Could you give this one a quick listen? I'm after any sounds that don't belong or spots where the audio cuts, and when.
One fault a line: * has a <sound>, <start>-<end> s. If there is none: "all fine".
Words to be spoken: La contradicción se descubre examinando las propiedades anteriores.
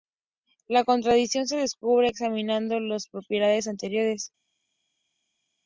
all fine